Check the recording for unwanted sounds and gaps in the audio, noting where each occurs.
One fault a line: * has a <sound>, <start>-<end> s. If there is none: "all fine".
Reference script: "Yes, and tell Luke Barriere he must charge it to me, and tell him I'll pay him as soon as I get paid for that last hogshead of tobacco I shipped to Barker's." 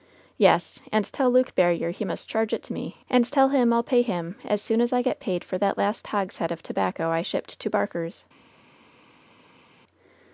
all fine